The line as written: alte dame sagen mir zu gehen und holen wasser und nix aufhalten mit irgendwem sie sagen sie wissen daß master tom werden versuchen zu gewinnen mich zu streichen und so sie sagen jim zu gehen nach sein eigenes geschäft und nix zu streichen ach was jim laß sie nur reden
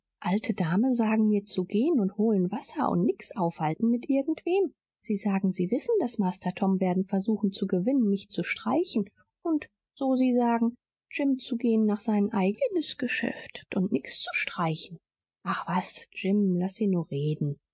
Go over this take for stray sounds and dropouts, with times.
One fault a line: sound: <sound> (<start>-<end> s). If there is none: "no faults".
no faults